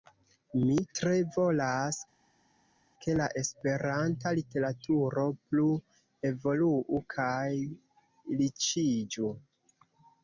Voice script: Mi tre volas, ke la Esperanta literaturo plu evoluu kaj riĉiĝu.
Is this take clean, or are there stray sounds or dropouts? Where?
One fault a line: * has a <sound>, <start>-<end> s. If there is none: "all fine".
all fine